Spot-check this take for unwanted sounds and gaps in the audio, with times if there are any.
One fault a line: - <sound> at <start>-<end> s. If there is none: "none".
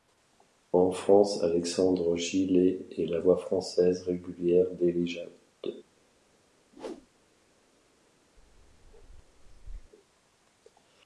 - whoosh at 6.7-7.1 s
- bark at 8.4-9.9 s